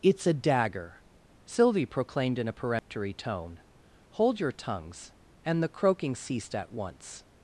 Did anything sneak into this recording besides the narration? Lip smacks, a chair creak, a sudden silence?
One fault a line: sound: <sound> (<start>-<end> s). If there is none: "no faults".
sound: dropout (2.8-2.9 s)